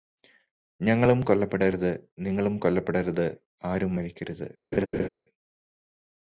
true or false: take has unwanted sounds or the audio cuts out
true